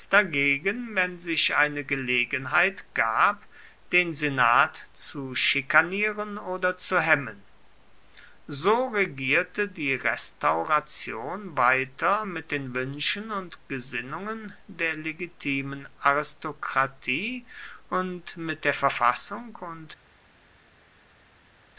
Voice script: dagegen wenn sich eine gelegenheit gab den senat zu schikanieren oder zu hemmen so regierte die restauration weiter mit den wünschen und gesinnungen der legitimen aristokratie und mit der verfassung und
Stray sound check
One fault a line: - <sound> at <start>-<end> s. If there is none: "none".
none